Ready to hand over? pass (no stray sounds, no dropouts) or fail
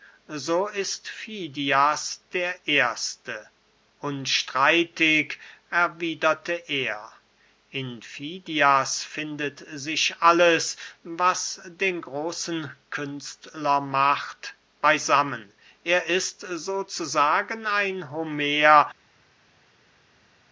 pass